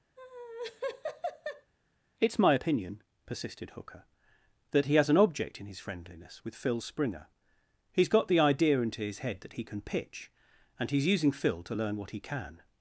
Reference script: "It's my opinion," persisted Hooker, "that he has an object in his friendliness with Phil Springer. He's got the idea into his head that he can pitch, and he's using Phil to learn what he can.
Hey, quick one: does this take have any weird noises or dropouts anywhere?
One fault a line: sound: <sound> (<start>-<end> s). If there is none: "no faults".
sound: laugh (0.2-1.7 s)